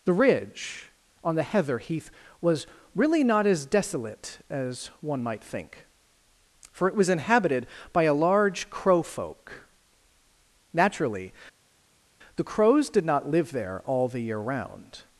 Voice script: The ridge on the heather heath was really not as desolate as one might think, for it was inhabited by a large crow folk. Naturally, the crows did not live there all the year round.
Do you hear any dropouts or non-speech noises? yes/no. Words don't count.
no